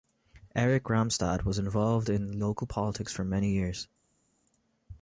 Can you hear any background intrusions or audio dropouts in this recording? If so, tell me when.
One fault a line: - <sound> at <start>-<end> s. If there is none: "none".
none